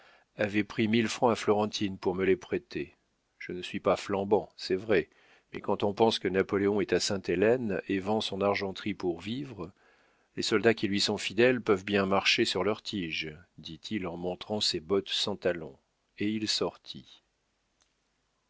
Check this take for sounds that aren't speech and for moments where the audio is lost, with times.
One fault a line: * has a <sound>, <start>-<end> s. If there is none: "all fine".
all fine